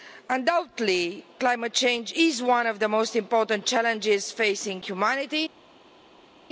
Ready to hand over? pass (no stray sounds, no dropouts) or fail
pass